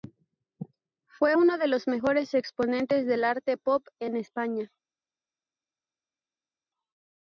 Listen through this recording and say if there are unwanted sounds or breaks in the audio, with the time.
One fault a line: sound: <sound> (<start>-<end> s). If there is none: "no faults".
no faults